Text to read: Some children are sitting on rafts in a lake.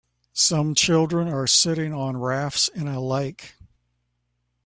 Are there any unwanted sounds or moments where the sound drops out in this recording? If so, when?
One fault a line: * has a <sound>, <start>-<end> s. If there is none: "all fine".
all fine